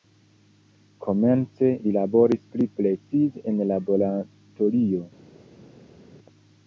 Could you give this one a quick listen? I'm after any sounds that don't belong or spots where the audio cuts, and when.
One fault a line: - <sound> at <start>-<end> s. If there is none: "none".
none